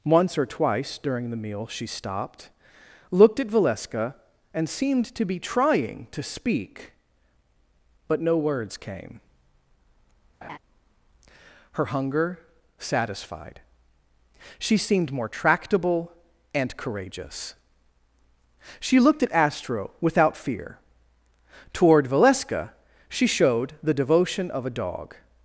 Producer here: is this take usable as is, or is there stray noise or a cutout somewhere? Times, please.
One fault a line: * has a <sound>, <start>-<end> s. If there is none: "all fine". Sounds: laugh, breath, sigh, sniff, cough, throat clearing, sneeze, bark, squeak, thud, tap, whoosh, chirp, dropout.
* has a laugh, 10.4-10.6 s